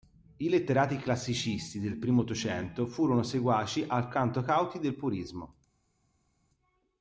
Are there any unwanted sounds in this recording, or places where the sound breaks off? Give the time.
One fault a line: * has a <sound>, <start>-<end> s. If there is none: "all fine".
all fine